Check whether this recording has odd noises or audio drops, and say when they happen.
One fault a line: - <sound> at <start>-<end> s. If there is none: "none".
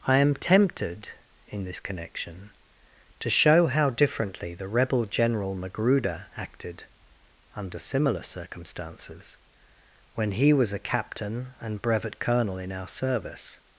none